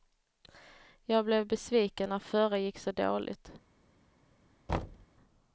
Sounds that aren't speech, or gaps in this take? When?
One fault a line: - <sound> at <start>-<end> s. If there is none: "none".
- thud at 4.7-5.1 s